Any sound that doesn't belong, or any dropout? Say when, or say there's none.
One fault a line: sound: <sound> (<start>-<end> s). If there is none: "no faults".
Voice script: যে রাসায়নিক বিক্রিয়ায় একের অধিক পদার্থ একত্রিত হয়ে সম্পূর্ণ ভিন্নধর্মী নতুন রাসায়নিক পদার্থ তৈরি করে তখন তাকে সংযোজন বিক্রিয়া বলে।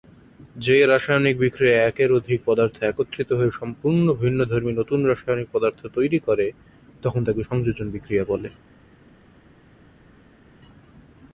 no faults